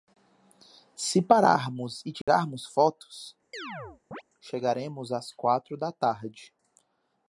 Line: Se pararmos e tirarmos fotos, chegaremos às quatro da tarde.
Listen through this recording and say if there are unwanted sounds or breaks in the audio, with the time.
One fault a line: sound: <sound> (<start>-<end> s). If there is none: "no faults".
sound: dropout (2.2-2.3 s)
sound: chirp (3.5-4.2 s)